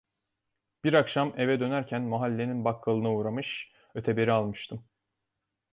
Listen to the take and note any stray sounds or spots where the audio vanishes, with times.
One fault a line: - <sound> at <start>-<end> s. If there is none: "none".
none